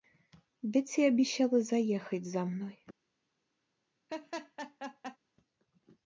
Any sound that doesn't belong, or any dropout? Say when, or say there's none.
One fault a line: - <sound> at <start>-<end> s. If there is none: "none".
- laugh at 4.1-5.2 s